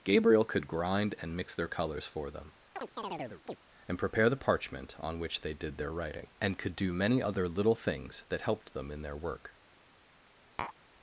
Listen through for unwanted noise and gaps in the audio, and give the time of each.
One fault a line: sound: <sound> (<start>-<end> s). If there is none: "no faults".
sound: chirp (2.8-3.6 s)
sound: tap (10.6-10.7 s)